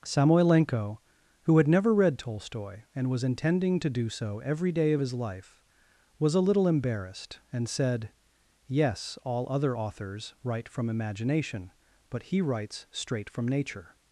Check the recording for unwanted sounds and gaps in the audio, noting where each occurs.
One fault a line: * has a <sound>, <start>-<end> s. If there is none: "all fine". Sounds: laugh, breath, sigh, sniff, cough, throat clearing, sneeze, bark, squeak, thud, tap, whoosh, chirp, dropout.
all fine